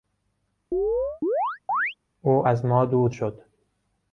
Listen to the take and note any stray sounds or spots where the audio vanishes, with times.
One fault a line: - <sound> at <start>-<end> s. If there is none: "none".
- chirp at 0.7-1.9 s